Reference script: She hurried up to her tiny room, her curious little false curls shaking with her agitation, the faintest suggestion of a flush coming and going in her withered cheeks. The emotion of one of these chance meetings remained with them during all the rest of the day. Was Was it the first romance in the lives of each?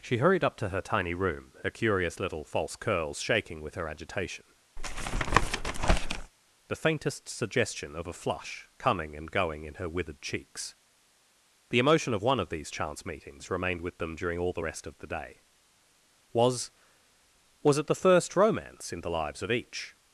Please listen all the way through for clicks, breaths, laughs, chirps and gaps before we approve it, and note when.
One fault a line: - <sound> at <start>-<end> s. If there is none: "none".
- tap at 4.8-6.3 s